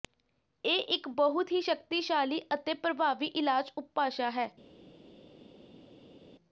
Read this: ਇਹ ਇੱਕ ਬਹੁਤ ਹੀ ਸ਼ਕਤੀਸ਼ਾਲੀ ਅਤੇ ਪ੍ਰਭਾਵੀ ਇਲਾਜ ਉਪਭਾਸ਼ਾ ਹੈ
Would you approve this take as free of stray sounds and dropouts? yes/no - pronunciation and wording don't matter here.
yes